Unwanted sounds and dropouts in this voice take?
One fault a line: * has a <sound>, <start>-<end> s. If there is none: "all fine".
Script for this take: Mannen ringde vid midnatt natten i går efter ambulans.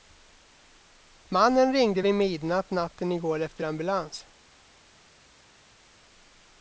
all fine